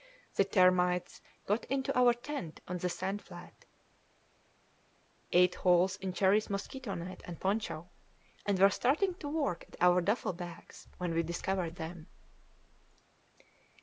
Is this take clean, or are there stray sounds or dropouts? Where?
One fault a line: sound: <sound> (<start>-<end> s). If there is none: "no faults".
no faults